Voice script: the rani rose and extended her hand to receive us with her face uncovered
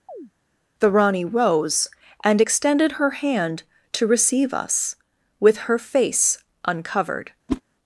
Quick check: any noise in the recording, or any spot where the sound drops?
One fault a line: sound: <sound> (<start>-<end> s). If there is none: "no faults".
sound: chirp (0.1-0.3 s)
sound: whoosh (7.5-7.6 s)